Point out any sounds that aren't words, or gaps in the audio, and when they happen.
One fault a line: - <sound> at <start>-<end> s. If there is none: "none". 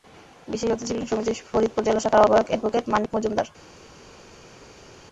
none